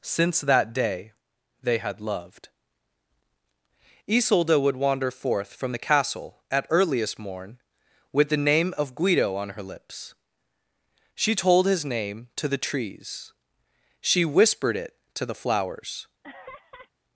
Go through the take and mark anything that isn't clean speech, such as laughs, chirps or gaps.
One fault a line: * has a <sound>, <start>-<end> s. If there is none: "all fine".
* has a laugh, 16.2-16.9 s